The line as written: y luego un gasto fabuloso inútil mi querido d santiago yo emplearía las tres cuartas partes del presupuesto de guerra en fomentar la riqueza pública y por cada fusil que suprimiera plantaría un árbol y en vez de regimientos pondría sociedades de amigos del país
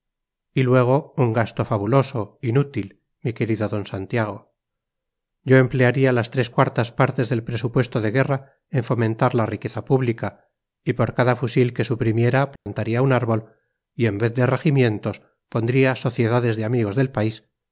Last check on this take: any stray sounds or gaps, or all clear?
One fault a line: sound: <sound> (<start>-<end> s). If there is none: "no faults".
sound: dropout (12.6-12.7 s)